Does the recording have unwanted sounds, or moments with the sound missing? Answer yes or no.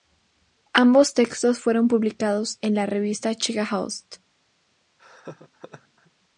yes